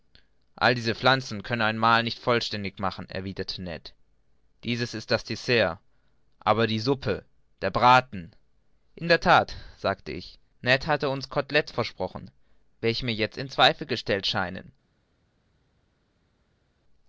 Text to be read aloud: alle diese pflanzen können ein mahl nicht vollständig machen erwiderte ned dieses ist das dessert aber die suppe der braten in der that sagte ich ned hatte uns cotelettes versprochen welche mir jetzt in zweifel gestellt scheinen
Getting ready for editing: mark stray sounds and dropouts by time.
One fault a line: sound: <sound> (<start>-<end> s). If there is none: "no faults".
no faults